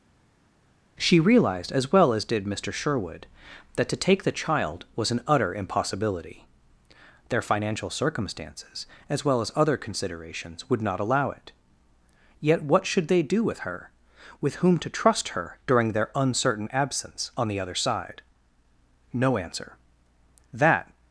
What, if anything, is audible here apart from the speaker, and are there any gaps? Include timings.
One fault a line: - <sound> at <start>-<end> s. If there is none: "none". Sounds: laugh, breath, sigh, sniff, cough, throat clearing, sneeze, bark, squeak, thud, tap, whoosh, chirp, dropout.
none